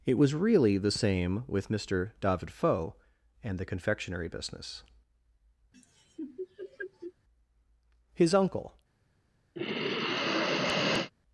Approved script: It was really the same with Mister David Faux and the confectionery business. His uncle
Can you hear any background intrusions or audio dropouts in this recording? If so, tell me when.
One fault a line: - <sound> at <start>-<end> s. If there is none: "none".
- laugh at 5.7-7.1 s
- sigh at 9.6-11.1 s